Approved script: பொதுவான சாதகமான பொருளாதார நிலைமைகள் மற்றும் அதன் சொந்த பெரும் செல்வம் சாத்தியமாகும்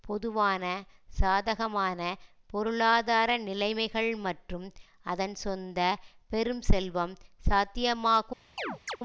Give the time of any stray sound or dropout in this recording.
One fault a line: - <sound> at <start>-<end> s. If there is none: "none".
- chirp at 8.6-9.0 s